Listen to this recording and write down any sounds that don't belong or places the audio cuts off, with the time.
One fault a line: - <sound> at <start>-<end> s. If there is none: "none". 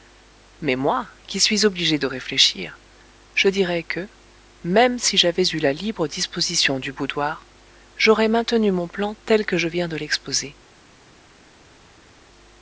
none